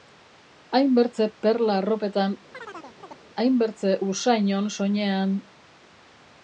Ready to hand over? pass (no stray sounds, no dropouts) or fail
fail